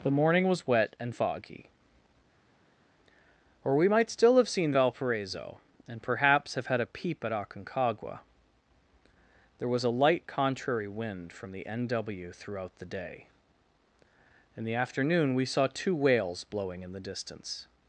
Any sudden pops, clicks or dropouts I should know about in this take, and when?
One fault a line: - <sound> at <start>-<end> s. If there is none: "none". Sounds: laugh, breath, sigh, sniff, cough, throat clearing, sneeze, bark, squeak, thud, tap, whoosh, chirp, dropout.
none